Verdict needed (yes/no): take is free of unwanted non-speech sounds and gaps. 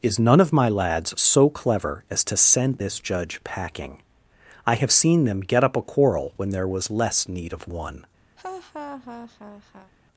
no